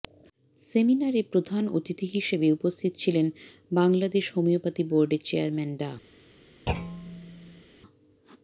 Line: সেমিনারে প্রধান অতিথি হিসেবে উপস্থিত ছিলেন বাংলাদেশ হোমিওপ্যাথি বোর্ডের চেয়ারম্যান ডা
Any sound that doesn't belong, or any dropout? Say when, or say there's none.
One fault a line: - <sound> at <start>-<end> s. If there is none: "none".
- thud at 6.7-7.6 s